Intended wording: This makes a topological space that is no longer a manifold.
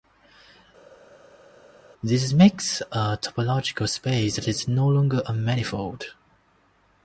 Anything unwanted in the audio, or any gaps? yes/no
no